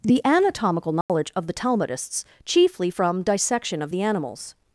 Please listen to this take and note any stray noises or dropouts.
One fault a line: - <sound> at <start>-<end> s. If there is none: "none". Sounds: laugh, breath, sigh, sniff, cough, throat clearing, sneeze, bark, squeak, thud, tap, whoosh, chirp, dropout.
- dropout at 1.0-1.1 s